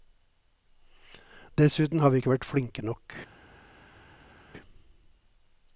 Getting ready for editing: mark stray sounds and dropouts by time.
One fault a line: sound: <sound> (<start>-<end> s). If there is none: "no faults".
no faults